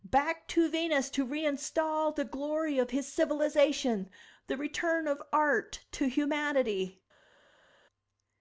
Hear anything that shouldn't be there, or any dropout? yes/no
no